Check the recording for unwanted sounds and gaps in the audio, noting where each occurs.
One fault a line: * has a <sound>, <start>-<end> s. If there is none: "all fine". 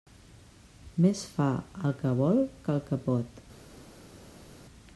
all fine